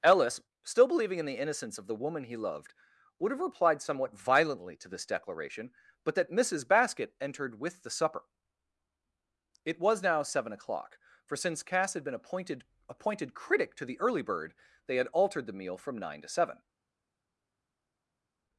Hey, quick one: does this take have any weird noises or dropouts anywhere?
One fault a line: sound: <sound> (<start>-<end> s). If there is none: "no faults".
no faults